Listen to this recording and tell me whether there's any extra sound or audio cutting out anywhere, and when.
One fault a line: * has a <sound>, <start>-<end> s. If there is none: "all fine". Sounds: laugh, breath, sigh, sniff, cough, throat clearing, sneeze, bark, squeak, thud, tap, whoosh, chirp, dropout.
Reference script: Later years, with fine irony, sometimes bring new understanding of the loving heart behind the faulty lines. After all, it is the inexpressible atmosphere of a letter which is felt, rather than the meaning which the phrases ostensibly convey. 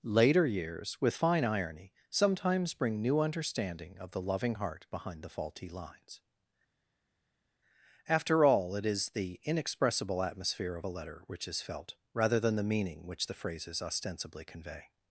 all fine